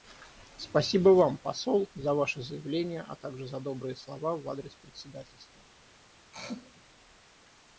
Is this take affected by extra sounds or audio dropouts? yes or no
yes